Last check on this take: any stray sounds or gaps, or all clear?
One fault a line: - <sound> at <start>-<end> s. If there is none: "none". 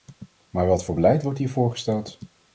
none